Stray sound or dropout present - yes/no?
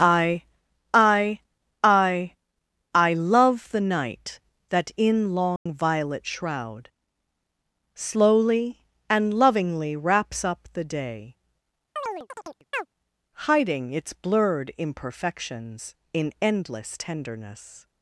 yes